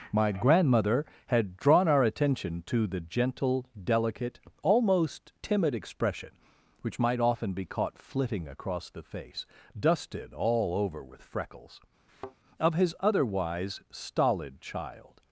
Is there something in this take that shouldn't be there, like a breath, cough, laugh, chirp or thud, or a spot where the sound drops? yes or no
yes